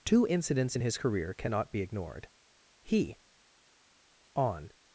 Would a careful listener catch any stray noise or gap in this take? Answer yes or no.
no